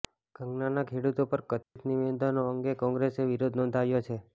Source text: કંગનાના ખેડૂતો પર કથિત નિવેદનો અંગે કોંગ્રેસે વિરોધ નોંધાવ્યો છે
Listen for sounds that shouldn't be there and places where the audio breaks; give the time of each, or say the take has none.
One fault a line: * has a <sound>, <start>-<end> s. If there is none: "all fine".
* has a dropout, 1.6-1.8 s